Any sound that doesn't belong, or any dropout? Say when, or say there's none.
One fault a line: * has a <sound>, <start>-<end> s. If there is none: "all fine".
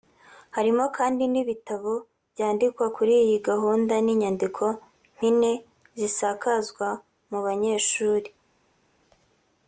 all fine